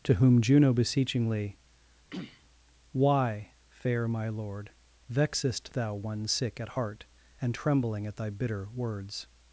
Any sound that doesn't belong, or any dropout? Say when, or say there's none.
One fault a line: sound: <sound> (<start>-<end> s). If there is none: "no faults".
sound: throat clearing (2.1-2.4 s)